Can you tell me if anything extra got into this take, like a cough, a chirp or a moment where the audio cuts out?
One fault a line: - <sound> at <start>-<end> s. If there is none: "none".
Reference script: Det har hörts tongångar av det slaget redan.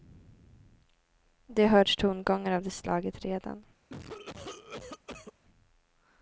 - cough at 3.9-5.3 s